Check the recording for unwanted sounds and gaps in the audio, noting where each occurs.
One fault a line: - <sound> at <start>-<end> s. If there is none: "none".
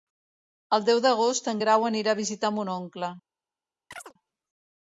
- chirp at 3.9-4.1 s